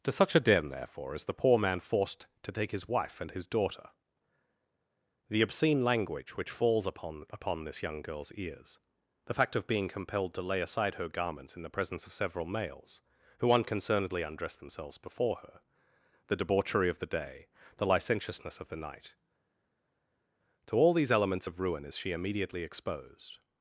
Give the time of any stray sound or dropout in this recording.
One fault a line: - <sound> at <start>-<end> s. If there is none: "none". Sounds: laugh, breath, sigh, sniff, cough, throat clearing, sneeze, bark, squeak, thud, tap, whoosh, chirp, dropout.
none